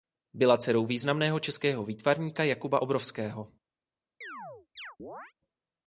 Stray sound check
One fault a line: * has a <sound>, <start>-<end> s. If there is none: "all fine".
* has a chirp, 4.2-5.3 s